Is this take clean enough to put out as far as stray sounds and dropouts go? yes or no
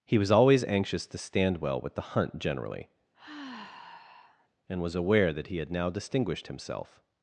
no